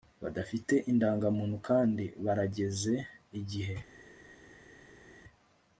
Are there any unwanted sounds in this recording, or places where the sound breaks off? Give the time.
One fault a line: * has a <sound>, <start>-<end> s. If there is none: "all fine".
all fine